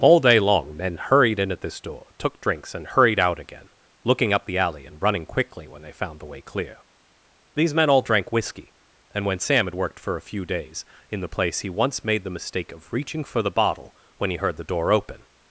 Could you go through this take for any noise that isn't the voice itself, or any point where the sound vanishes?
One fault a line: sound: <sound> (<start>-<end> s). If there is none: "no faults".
no faults